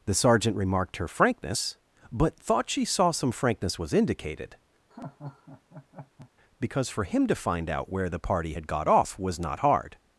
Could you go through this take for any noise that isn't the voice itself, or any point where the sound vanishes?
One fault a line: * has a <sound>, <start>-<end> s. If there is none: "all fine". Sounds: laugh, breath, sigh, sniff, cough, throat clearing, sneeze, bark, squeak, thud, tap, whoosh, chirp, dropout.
* has a laugh, 4.9-6.3 s